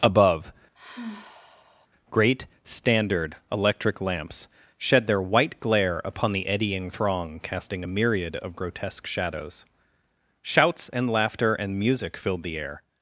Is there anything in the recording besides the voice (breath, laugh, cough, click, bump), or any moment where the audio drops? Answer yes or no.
yes